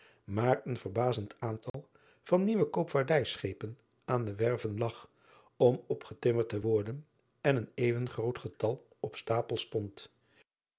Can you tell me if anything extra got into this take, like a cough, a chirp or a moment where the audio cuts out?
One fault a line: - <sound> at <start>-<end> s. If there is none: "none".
- dropout at 1.7-1.7 s